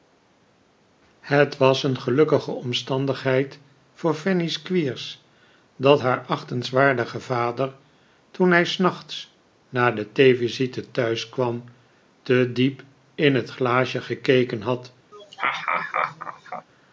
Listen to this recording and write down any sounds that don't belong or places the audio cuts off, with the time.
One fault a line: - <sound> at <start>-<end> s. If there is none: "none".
- laugh at 15.1-16.7 s